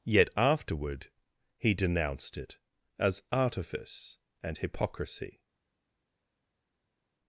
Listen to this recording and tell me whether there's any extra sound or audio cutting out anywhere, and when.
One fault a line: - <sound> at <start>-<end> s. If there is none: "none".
none